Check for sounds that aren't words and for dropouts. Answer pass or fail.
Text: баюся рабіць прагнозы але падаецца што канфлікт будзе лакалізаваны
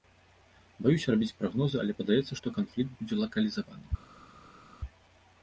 pass